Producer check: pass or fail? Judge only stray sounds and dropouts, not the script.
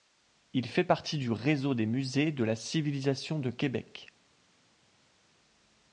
pass